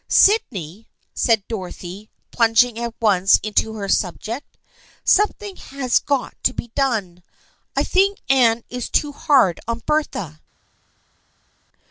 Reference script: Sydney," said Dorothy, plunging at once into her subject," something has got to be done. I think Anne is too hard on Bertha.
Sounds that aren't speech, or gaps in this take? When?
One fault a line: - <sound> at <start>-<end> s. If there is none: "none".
none